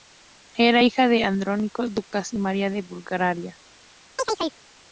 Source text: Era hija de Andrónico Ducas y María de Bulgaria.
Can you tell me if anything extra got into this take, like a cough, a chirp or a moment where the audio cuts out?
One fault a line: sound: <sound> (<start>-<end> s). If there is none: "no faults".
sound: chirp (4.2-4.6 s)